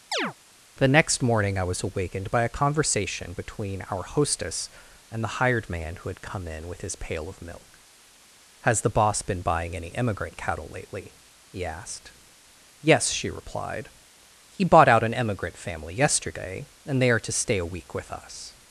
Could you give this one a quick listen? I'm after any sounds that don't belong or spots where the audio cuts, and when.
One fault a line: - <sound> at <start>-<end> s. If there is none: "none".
- chirp at 0.1-0.3 s